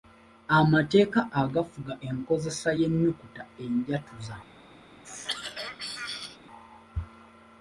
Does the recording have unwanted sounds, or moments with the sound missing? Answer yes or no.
yes